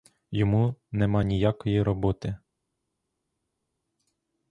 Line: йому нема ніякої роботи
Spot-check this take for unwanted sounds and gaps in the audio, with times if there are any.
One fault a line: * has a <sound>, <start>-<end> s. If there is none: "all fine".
all fine